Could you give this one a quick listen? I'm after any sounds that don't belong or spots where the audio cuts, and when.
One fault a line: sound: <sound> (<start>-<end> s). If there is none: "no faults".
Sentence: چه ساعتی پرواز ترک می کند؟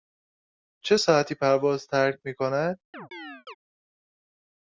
sound: chirp (2.9-3.5 s)